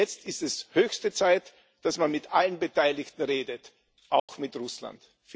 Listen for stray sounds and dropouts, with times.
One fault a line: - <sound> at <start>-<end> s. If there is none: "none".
- dropout at 4.2-4.3 s